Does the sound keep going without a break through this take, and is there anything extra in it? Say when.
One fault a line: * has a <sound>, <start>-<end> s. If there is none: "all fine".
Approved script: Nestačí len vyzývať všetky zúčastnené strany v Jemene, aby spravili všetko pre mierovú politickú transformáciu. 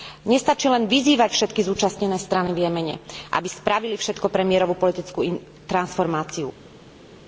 all fine